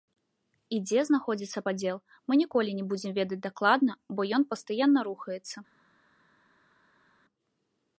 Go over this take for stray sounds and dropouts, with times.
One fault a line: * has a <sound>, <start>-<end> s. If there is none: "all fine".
all fine